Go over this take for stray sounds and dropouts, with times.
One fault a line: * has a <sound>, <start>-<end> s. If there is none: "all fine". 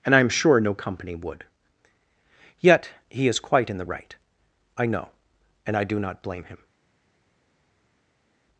all fine